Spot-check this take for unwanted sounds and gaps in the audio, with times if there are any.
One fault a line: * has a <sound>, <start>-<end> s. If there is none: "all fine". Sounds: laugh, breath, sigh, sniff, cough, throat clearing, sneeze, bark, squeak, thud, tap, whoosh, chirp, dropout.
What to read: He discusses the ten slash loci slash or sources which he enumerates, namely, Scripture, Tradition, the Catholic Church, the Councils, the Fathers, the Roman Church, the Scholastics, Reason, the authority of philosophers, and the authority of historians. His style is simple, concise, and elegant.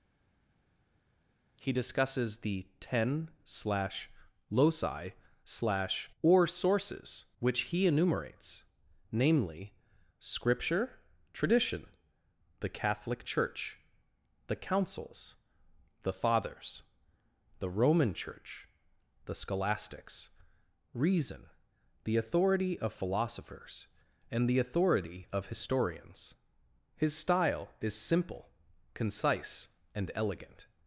all fine